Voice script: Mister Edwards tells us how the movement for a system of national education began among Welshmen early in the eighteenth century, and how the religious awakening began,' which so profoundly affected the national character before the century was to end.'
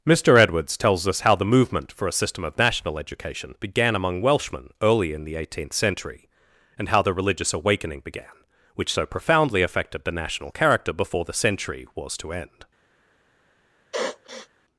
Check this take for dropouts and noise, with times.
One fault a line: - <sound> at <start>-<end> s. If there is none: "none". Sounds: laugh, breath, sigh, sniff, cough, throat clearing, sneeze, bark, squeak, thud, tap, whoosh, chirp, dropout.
- sniff at 13.9-14.5 s